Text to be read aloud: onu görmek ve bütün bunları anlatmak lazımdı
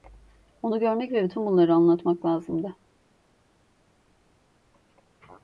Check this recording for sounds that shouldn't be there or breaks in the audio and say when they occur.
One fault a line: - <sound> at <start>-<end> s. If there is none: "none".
none